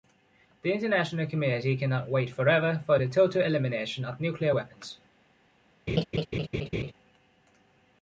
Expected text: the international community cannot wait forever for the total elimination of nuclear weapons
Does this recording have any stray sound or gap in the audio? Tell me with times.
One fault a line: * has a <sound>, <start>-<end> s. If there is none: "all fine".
* has a laugh, 5.9-6.9 s